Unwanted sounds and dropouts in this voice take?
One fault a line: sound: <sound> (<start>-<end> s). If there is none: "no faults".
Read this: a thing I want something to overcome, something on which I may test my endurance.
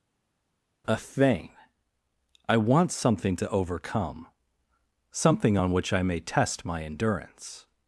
no faults